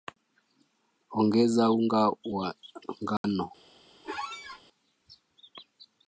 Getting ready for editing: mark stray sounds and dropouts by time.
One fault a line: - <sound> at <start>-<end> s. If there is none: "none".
- dropout at 3.2-3.2 s
- squeak at 4.0-4.6 s